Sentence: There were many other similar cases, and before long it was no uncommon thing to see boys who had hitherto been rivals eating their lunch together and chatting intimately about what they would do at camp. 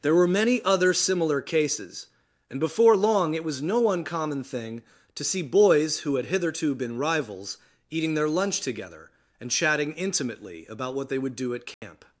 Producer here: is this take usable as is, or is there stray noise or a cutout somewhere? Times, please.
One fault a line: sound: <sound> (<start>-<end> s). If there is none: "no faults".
sound: dropout (11.7-11.8 s)